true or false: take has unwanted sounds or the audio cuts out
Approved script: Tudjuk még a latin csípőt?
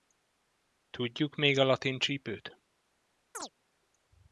true